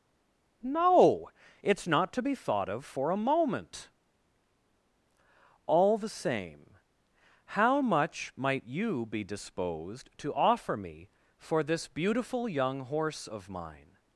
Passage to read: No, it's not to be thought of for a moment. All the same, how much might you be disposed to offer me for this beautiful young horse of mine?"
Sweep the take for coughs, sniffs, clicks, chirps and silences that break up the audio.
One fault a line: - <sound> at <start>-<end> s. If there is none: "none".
none